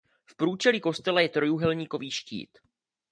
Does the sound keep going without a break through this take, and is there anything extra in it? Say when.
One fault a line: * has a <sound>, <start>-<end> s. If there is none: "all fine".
all fine